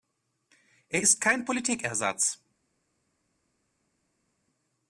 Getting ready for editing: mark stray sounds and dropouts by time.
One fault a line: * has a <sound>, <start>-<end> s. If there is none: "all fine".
all fine